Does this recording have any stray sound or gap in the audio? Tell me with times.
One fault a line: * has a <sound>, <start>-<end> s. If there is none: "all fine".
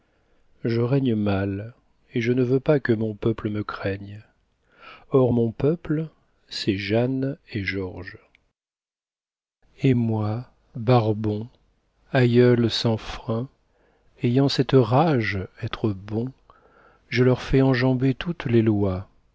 all fine